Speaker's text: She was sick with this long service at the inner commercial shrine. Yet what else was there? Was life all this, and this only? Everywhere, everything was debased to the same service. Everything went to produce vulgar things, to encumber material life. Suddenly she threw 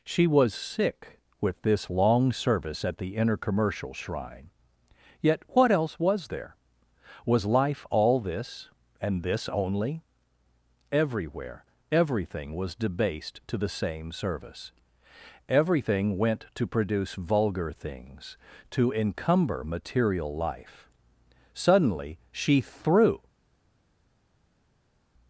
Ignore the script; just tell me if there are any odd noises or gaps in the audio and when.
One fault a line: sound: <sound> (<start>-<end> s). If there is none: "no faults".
no faults